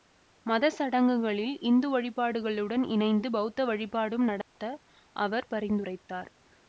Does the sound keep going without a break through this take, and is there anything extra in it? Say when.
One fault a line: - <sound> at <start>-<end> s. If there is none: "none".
- dropout at 4.4-4.6 s